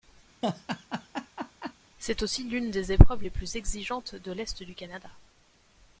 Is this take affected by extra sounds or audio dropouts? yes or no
yes